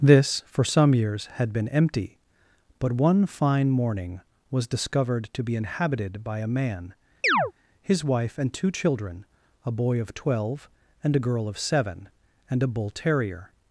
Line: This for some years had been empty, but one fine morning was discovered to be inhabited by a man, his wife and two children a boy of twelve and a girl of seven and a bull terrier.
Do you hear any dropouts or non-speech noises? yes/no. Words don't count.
yes